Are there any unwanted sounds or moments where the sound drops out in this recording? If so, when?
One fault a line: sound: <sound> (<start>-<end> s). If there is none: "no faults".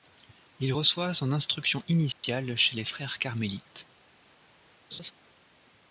sound: dropout (2.1-2.2 s)
sound: laugh (4.9-5.1 s)